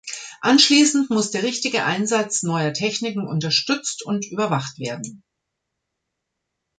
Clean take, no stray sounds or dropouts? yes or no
yes